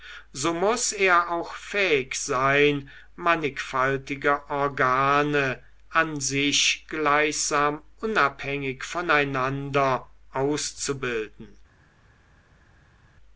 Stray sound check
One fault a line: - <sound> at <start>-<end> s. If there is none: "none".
none